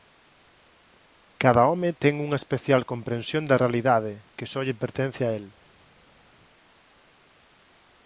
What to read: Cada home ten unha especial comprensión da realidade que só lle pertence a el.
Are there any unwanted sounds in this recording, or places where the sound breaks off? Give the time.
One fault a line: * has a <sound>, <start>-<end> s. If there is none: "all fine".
all fine